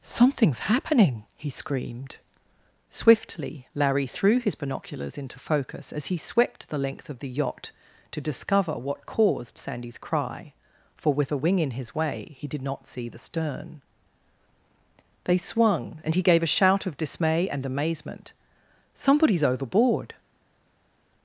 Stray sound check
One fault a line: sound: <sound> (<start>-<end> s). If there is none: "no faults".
no faults